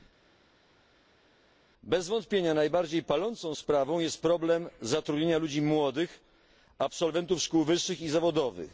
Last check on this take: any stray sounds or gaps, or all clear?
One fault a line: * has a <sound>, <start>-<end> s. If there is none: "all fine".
all fine